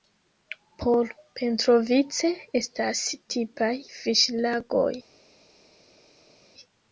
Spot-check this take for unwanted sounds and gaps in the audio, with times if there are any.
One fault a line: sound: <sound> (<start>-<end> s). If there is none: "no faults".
no faults